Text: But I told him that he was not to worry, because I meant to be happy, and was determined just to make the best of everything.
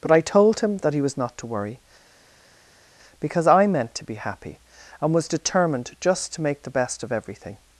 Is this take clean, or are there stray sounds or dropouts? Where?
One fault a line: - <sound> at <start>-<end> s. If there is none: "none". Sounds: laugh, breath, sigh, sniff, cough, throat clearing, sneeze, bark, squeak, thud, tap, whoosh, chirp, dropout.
none